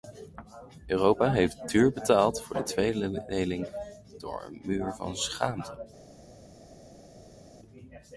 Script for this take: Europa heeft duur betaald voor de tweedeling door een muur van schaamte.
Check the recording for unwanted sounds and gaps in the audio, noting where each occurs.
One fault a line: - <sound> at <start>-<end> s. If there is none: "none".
none